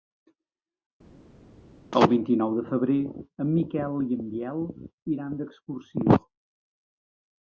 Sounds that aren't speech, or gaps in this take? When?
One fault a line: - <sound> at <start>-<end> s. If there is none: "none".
none